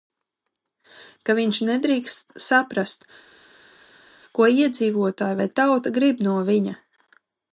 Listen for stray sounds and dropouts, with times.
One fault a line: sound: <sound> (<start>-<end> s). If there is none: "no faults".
no faults